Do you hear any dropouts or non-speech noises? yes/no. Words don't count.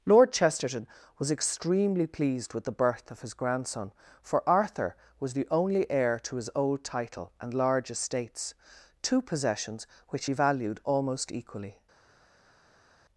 no